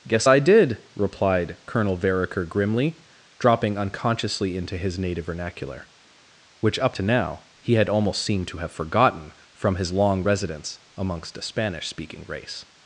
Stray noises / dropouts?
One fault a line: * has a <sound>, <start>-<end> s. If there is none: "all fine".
all fine